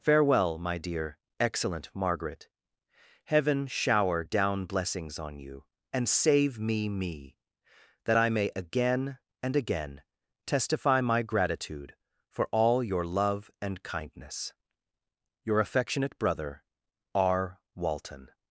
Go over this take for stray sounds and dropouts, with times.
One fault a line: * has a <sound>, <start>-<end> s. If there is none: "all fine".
all fine